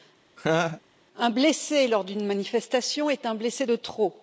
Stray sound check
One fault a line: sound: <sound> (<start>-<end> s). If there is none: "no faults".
sound: laugh (0.4-0.8 s)